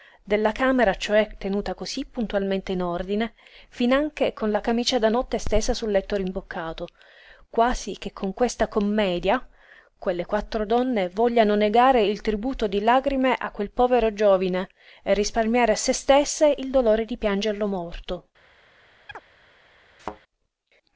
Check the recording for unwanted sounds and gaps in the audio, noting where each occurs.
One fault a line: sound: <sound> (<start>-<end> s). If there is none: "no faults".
sound: chirp (19.1-19.2 s)
sound: thud (20.0-20.2 s)